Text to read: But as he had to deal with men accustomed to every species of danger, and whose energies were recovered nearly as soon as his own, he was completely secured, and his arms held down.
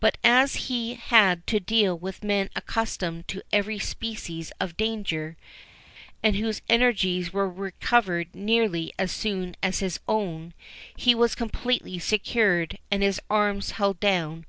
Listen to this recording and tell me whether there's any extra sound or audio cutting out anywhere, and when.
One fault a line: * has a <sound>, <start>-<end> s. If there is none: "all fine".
all fine